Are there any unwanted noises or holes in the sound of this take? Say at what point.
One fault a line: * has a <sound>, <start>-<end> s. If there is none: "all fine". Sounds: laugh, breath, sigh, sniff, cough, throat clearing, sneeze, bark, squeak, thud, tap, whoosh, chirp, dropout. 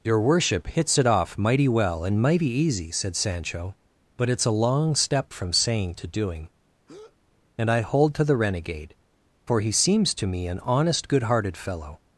* has a breath, 6.9-7.2 s